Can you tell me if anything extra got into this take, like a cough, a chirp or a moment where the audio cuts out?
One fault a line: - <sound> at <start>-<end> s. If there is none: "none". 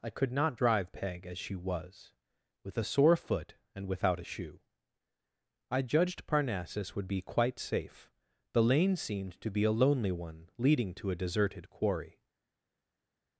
none